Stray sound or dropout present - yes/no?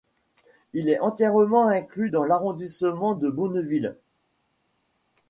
no